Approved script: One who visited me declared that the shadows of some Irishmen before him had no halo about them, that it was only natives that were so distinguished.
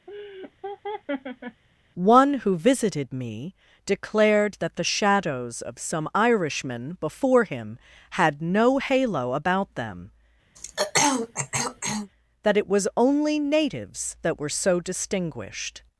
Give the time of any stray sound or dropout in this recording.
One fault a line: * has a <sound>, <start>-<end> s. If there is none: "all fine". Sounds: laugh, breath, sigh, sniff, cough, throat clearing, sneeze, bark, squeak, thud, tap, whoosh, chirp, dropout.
* has a laugh, 0.1-1.6 s
* has a throat clearing, 10.6-12.1 s